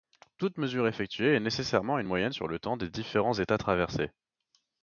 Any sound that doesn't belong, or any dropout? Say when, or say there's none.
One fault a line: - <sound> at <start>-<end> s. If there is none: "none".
none